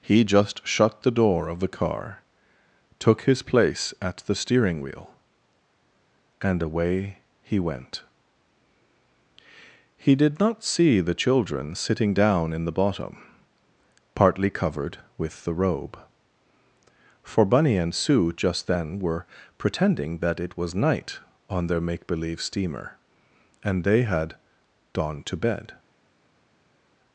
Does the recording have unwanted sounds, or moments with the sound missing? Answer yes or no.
no